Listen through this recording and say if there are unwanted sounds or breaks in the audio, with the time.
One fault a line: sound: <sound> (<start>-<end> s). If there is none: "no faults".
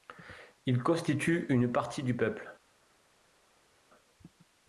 no faults